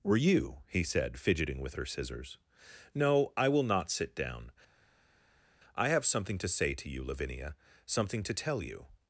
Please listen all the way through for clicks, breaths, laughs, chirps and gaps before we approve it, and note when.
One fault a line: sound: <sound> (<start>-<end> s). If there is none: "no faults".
no faults